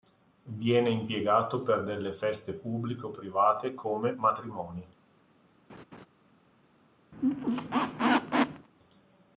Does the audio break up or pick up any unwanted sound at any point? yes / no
yes